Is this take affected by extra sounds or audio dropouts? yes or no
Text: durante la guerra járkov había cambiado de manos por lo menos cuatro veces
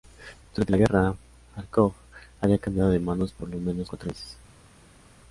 no